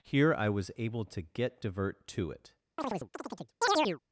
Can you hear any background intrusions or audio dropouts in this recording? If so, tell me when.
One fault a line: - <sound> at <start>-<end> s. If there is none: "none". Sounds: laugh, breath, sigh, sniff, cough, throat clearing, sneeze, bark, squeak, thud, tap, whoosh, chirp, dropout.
- chirp at 2.8-4.0 s